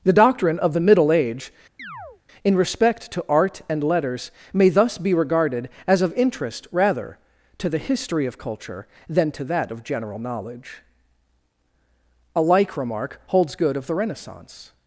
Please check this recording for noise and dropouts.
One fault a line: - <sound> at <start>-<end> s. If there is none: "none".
- chirp at 1.8-2.2 s